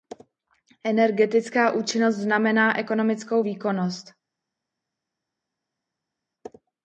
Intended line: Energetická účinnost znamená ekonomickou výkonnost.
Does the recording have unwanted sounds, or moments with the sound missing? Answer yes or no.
no